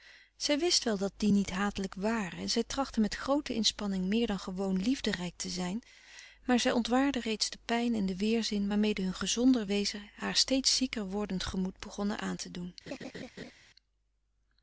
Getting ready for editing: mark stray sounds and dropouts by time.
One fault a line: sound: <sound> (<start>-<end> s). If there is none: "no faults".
sound: laugh (12.9-13.5 s)